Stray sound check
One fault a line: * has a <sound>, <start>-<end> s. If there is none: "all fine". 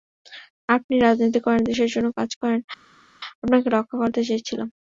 all fine